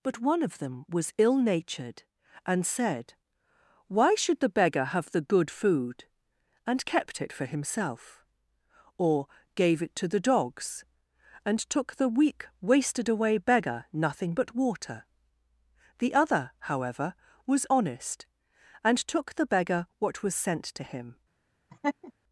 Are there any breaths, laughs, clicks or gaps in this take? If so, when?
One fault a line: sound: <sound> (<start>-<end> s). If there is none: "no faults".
sound: laugh (21.7-22.1 s)